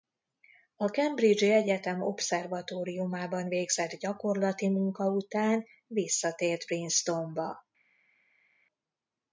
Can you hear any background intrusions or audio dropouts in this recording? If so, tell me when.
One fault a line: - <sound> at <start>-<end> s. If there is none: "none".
none